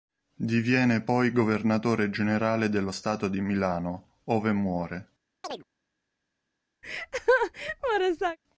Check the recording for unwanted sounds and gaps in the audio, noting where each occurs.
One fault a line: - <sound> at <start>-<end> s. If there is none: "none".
- chirp at 5.4-5.6 s
- laugh at 6.8-8.4 s